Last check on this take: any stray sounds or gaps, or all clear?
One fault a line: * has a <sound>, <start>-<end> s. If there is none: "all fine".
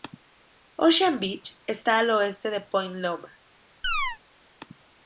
* has a chirp, 3.8-4.2 s